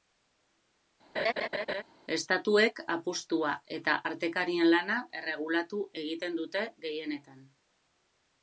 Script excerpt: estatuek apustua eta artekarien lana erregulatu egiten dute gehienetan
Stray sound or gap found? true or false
true